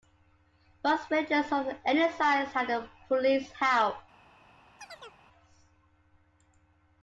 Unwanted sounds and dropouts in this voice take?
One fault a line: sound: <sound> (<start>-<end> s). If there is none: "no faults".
sound: chirp (4.8-5.2 s)